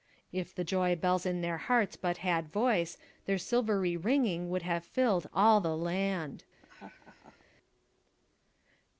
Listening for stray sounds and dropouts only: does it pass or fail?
fail